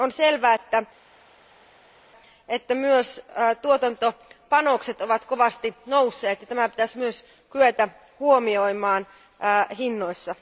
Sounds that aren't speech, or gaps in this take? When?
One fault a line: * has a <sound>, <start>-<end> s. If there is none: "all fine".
all fine